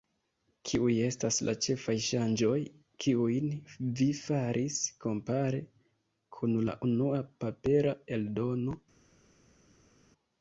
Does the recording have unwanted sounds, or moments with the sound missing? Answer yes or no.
no